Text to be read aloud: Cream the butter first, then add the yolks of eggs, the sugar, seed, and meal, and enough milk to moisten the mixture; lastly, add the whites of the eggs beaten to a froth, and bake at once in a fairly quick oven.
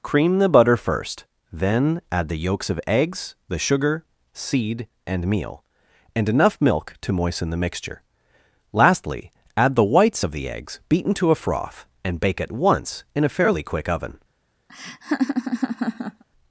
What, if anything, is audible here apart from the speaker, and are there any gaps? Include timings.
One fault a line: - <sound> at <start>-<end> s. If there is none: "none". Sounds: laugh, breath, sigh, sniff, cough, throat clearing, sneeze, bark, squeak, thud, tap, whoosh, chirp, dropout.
- laugh at 14.7-16.2 s